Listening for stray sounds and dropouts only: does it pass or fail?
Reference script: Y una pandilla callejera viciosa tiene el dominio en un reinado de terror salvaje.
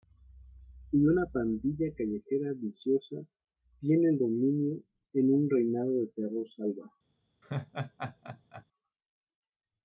fail